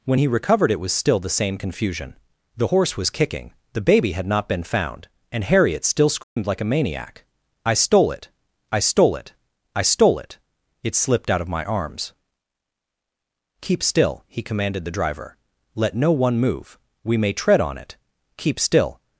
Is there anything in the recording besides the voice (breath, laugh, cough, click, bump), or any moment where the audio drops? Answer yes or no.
yes